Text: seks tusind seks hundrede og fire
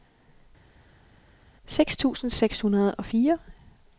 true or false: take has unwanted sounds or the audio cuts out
false